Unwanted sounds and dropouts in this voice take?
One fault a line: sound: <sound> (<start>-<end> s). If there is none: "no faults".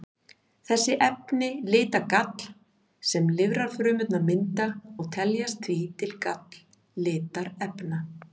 no faults